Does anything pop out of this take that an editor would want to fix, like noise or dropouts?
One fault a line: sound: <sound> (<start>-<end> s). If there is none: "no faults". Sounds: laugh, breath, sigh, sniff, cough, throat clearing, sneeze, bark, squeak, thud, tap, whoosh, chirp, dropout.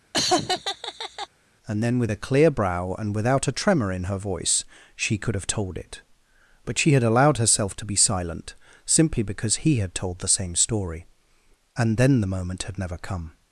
sound: laugh (0.1-1.3 s)